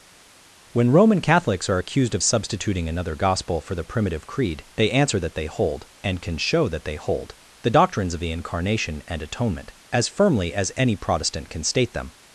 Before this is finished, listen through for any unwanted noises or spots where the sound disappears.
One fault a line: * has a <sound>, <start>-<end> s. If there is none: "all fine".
all fine